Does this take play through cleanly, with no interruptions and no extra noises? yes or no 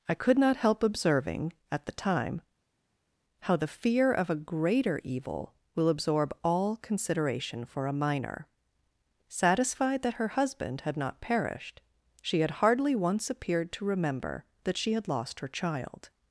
yes